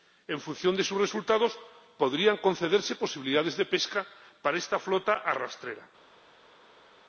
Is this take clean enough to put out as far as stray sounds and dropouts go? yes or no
yes